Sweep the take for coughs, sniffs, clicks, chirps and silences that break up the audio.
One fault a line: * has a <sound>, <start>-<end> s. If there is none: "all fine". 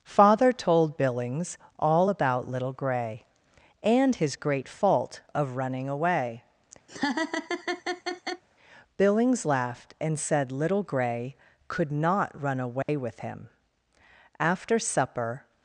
* has a laugh, 6.9-8.4 s
* has a dropout, 12.8-12.9 s